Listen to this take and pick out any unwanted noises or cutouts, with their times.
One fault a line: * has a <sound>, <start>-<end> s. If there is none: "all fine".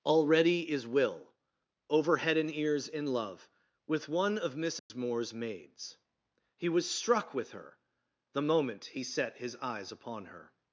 * has a dropout, 4.8-4.9 s